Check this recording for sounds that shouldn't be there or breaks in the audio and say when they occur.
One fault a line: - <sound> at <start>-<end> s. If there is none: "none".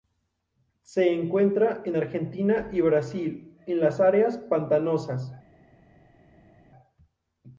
none